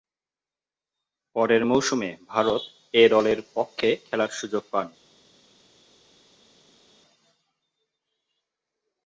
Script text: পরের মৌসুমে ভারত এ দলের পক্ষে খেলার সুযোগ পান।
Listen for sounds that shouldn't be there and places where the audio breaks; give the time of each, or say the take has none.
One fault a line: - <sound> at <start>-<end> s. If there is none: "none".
none